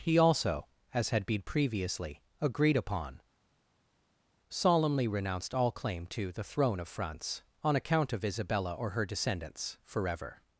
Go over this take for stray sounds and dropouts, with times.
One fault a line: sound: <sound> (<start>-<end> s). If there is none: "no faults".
no faults